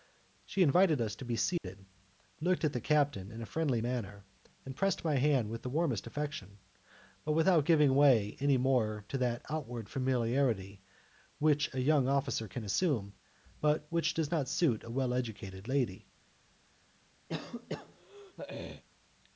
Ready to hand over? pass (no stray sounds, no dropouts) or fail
fail